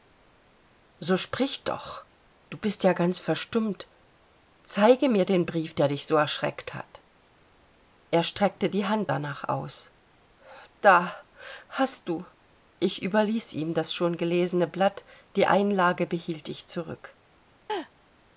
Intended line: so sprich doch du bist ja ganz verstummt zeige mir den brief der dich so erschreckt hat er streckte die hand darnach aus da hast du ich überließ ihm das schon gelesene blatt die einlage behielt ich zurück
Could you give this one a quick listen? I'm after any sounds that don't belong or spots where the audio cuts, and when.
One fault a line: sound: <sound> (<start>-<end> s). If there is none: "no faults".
sound: laugh (17.7-17.9 s)